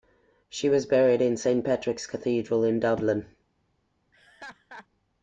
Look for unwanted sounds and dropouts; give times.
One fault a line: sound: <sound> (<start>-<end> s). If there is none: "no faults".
sound: laugh (4.1-4.9 s)